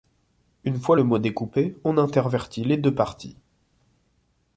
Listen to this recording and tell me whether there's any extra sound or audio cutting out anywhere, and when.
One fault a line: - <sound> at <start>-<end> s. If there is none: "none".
none